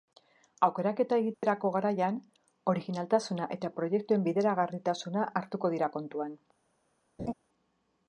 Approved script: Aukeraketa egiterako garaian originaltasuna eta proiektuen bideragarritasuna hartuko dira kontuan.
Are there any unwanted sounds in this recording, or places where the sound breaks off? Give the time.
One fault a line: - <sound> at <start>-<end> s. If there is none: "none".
- dropout at 1.3-1.4 s
- laugh at 7.2-7.3 s